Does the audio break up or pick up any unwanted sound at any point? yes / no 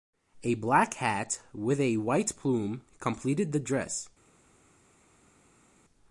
no